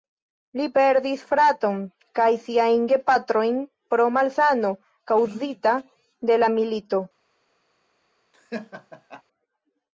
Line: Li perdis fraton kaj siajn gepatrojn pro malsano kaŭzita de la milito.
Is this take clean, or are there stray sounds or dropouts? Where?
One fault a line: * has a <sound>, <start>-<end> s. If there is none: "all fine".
* has a laugh, 8.3-9.2 s